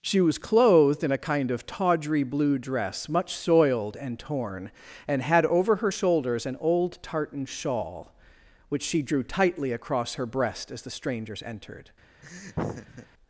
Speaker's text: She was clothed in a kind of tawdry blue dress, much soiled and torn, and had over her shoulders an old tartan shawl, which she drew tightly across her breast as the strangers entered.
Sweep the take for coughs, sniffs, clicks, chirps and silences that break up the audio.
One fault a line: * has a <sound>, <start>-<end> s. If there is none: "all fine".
* has a laugh, 12.2-13.1 s